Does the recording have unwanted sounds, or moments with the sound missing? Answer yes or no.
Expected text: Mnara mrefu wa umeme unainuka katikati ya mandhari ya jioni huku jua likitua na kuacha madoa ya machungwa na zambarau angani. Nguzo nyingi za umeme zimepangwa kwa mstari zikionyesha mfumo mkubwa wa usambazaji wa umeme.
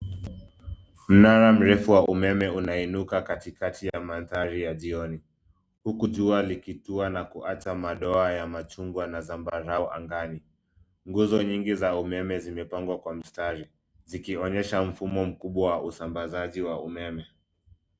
no